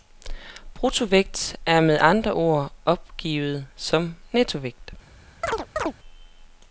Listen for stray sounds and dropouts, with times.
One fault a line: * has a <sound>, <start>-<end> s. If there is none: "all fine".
* has a chirp, 5.4-5.9 s